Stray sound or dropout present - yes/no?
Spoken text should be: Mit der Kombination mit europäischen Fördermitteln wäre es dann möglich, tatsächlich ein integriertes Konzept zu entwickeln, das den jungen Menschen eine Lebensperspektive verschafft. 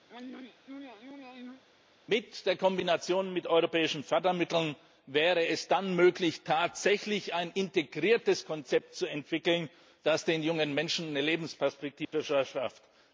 yes